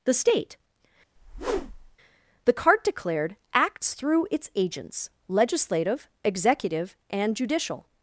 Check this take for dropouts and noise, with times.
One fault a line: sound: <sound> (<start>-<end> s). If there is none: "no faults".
sound: whoosh (1.2-2.0 s)